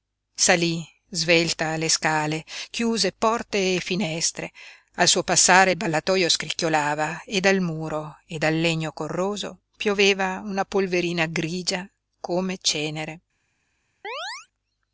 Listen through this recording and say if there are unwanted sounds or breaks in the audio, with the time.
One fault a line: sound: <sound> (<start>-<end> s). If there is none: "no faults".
sound: chirp (14.0-14.5 s)